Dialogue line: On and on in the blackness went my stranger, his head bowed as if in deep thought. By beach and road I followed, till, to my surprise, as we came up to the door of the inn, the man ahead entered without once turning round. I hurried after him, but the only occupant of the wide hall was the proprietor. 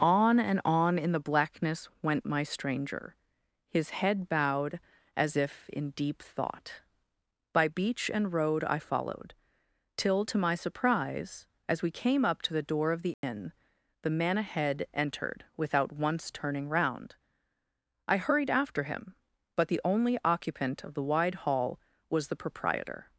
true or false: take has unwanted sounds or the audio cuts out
true